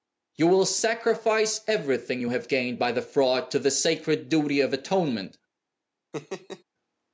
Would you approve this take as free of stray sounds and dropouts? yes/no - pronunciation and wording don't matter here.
no